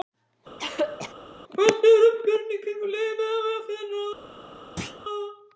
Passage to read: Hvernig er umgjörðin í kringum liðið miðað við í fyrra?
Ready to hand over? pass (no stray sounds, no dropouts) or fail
fail